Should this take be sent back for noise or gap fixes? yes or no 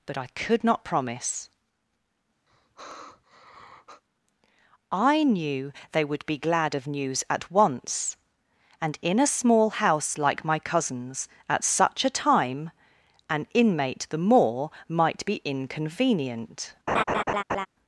yes